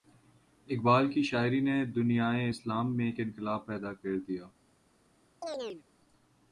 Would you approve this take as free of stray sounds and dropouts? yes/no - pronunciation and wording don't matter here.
no